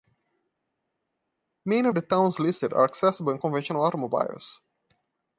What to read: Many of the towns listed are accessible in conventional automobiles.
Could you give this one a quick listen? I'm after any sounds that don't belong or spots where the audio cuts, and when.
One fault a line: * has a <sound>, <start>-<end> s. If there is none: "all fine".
all fine